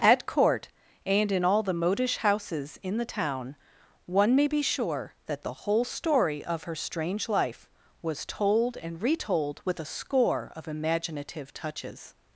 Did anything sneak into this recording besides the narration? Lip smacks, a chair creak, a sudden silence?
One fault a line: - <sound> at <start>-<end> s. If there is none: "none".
none